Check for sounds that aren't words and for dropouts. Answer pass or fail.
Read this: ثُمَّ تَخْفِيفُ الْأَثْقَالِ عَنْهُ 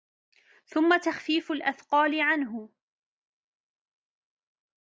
pass